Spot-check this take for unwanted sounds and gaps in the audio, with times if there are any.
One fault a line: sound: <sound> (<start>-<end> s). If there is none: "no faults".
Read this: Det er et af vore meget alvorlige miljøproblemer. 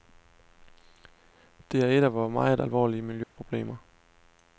sound: dropout (3.2-3.4 s)